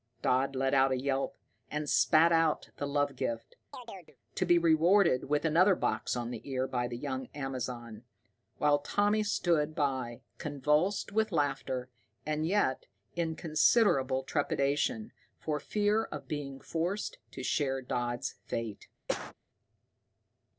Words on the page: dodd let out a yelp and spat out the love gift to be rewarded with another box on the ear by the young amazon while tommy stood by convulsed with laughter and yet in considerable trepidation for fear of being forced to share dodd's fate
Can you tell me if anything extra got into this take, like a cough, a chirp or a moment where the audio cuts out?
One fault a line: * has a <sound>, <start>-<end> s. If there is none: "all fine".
* has a chirp, 3.7-4.2 s
* has a cough, 19.1-19.3 s